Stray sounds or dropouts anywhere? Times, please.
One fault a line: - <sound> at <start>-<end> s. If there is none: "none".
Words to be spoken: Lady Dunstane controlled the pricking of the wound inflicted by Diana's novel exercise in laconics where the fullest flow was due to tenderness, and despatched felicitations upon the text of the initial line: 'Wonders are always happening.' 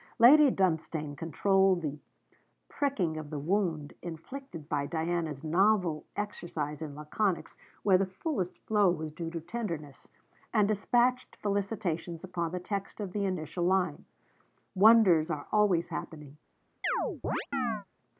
- chirp at 16.8-17.9 s